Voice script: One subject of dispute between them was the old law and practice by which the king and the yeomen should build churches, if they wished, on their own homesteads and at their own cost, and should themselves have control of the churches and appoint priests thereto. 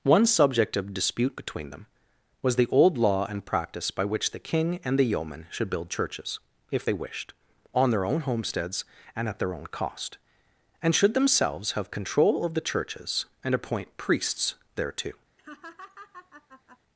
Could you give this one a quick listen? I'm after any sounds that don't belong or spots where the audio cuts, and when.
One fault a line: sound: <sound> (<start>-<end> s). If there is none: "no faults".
sound: laugh (15.4-16.8 s)